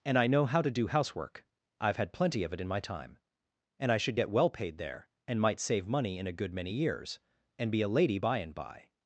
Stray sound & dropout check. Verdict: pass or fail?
pass